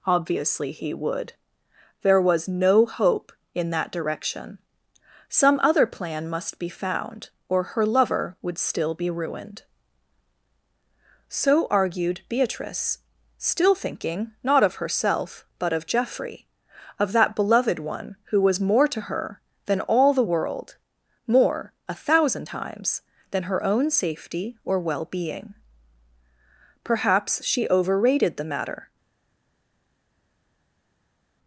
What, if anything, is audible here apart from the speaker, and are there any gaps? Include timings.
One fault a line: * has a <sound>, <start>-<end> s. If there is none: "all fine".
all fine